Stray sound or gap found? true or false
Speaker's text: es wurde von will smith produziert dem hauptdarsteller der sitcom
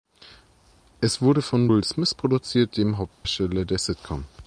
true